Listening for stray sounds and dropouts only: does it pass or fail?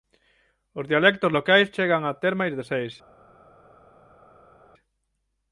pass